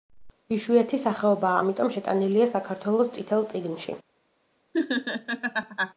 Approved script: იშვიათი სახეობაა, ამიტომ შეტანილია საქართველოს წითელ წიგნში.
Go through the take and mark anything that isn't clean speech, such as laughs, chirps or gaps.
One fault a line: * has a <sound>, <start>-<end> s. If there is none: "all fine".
* has a laugh, 4.7-5.9 s